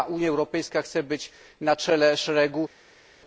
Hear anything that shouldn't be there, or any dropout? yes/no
no